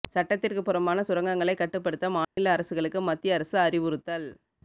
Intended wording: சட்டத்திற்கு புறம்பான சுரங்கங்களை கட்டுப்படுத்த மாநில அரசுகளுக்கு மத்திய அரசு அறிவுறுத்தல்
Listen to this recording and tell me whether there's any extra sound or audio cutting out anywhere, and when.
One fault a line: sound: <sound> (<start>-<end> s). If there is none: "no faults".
sound: dropout (2.2-2.4 s)